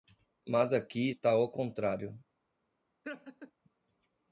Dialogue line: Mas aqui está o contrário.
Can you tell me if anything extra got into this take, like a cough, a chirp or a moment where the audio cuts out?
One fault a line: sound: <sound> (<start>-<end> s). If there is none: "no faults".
sound: laugh (3.0-3.5 s)